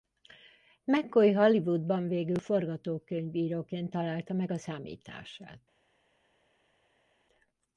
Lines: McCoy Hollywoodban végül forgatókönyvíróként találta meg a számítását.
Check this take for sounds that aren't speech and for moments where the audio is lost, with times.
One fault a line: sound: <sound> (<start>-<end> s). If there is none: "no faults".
no faults